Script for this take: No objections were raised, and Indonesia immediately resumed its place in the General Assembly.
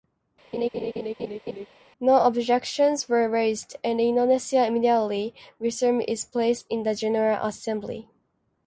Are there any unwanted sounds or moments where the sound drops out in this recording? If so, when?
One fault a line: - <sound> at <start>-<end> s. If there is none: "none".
- laugh at 0.5-1.7 s